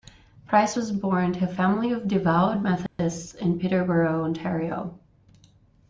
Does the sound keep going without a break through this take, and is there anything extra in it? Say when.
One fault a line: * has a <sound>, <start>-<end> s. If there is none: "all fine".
* has a dropout, 2.9-3.0 s